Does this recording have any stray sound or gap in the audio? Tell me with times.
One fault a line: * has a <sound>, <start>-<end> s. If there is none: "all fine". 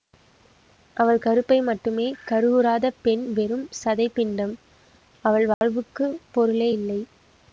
* has a dropout, 5.5-5.6 s